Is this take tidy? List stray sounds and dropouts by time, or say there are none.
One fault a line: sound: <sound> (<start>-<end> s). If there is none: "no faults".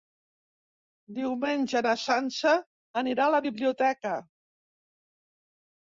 no faults